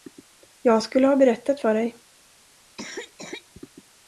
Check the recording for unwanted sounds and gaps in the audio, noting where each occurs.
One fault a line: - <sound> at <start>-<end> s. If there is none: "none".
- cough at 2.8-3.5 s